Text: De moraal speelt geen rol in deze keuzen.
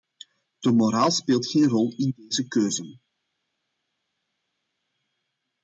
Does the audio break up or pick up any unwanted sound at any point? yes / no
no